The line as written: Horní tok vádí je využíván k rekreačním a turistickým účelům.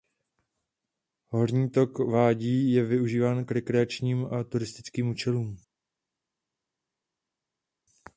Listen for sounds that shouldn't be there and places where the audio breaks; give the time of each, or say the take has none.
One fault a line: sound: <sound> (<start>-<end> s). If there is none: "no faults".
no faults